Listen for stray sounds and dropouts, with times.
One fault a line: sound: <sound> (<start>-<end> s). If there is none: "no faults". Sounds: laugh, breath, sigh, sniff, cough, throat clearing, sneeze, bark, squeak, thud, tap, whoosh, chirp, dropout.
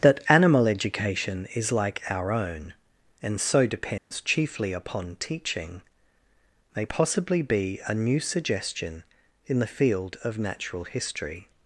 sound: dropout (4.0-4.1 s)